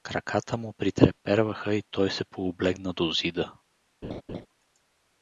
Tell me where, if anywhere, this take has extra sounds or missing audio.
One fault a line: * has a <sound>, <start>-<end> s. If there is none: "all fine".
* has a laugh, 4.0-4.5 s